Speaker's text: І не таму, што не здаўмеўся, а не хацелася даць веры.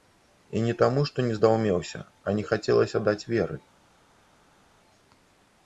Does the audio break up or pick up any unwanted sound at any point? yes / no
no